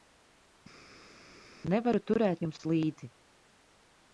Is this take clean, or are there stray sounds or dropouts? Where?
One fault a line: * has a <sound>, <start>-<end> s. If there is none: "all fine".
all fine